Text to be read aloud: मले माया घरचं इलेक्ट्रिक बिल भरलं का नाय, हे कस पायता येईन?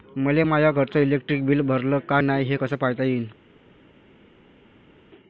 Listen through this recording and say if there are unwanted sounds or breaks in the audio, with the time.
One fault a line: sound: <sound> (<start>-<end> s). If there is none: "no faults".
no faults